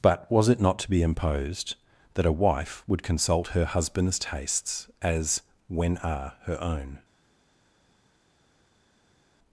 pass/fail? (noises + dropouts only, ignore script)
pass